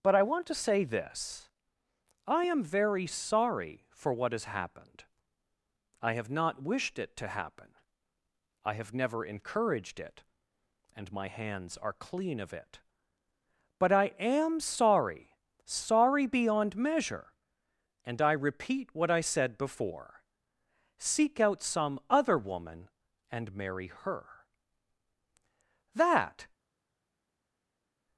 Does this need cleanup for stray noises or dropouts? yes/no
no